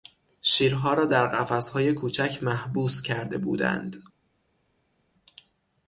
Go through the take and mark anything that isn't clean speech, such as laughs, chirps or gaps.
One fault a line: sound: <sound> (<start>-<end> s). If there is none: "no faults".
no faults